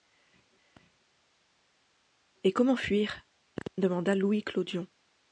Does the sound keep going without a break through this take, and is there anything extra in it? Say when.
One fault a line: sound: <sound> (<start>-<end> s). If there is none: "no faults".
no faults